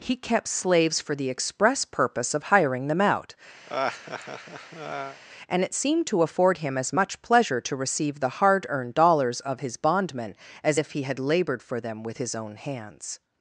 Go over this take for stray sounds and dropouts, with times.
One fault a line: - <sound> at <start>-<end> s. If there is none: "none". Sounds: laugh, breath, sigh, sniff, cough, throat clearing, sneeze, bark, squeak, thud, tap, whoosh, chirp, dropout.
- laugh at 3.7-5.2 s